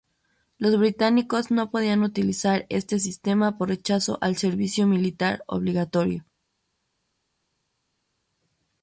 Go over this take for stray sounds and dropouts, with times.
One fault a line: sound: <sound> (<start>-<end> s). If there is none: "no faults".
no faults